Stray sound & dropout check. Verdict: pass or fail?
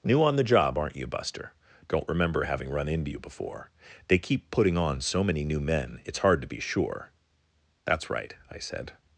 pass